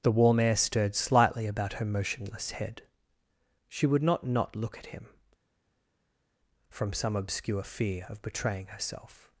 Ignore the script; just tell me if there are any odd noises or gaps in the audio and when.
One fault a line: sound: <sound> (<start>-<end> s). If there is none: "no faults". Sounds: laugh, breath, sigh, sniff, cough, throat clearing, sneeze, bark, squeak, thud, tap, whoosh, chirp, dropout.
no faults